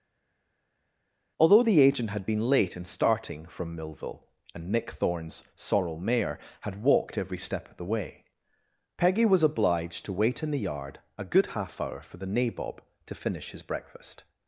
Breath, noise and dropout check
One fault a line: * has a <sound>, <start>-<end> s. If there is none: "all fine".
all fine